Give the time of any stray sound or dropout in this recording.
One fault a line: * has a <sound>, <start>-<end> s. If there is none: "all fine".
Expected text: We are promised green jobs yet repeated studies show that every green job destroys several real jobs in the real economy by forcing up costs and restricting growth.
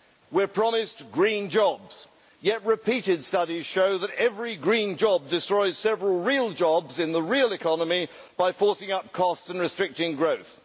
all fine